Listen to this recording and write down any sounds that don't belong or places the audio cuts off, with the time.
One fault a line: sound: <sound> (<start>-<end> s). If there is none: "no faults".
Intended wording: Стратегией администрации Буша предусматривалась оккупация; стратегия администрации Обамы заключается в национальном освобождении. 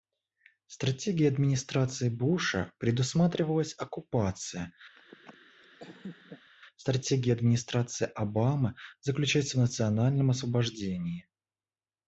sound: laugh (5.0-6.5 s)